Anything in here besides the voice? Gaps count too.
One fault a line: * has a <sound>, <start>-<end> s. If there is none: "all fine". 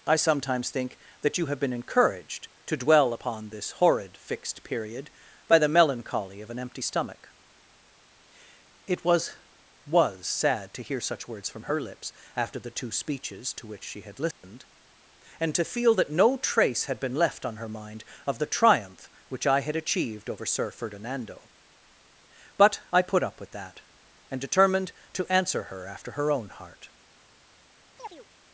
* has a dropout, 14.3-14.4 s
* has a chirp, 28.0-28.3 s